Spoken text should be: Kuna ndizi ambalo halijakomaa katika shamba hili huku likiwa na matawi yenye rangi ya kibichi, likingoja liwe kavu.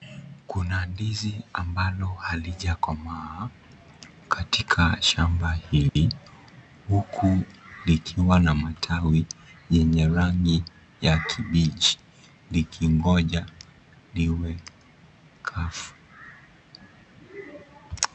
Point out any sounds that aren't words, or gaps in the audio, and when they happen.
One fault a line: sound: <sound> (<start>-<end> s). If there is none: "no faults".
sound: dropout (5.9-6.0 s)